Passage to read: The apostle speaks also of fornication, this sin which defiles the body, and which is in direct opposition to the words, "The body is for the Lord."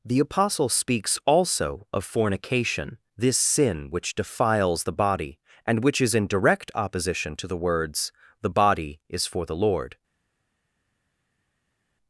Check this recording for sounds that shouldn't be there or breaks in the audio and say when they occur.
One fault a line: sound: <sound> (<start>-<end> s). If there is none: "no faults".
no faults